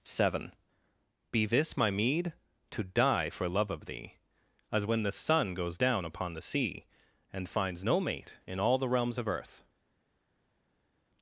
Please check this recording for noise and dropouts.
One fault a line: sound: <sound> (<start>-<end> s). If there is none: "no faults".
no faults